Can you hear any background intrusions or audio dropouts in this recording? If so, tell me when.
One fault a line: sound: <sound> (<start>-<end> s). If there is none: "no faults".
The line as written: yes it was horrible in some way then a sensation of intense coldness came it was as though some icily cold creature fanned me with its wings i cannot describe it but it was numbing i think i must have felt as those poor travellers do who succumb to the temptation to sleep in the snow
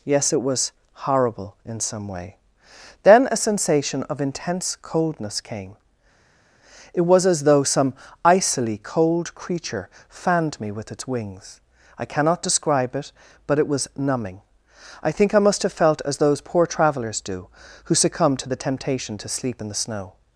no faults